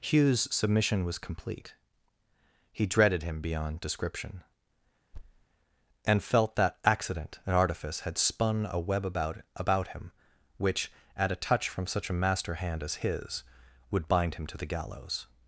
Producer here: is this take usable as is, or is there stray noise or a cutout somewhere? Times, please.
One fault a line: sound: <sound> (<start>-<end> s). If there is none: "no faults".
sound: thud (5.1-5.4 s)